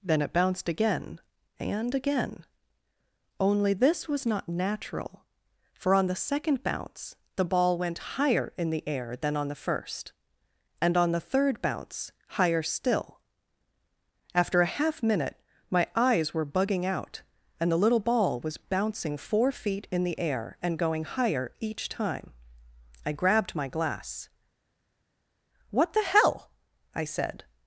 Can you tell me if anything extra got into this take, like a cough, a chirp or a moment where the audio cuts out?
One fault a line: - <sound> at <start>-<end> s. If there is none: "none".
none